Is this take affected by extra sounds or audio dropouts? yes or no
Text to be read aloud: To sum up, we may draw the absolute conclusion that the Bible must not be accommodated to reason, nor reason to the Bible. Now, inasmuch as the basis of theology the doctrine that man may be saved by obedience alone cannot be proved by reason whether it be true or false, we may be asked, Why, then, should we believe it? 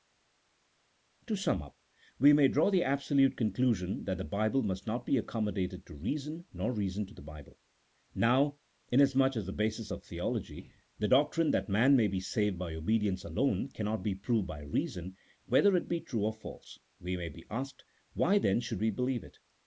no